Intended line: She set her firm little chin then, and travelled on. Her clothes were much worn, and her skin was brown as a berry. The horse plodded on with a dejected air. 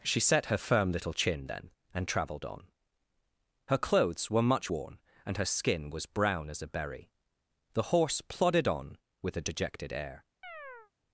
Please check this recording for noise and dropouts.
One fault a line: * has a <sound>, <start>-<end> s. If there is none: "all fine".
* has a chirp, 10.4-10.9 s